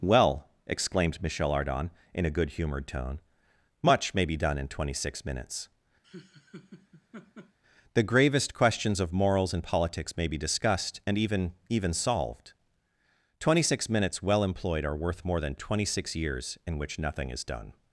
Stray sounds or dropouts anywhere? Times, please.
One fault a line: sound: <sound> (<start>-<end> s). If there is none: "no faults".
sound: laugh (6.0-7.6 s)